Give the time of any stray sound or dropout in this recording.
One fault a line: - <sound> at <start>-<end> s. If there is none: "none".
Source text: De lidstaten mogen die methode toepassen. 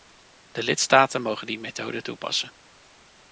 none